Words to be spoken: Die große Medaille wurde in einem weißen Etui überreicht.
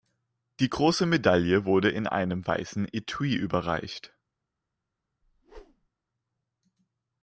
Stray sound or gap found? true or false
true